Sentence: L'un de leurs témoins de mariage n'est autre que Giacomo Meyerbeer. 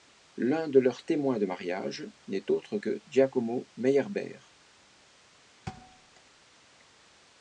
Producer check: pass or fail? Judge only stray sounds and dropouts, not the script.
fail